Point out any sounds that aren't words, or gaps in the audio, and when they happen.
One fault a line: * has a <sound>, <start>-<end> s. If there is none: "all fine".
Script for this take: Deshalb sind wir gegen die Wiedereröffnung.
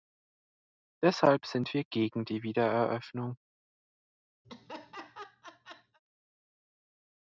* has a laugh, 4.4-6.0 s